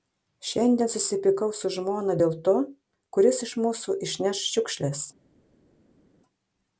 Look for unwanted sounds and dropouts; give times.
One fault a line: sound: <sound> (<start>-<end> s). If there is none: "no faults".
no faults